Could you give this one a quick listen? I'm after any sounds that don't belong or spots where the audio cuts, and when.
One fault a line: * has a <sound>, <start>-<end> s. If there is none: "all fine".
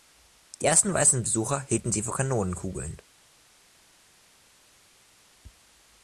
all fine